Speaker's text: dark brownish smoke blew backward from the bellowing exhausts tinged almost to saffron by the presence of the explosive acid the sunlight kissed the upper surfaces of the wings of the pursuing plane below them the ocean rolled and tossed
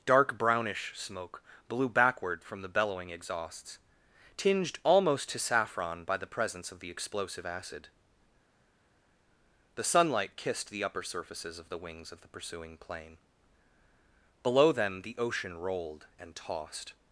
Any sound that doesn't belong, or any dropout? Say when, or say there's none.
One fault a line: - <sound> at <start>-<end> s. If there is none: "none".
none